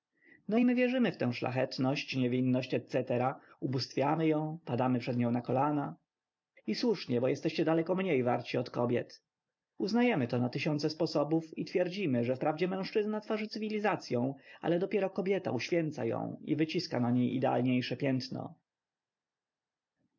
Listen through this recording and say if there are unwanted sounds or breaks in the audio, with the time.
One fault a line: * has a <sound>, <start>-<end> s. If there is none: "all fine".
all fine